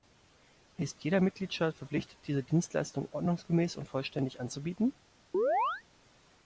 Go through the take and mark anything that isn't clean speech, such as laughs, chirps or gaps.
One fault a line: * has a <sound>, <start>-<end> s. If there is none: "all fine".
* has a chirp, 5.3-5.8 s